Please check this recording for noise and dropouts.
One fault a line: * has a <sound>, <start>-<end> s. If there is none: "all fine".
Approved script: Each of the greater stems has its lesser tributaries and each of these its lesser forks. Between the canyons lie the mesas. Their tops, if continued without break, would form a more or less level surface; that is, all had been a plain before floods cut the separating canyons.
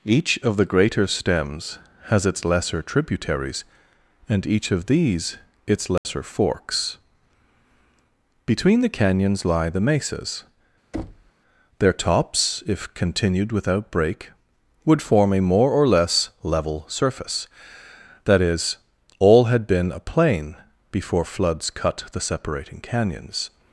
* has a dropout, 6.0-6.0 s
* has a thud, 10.9-11.3 s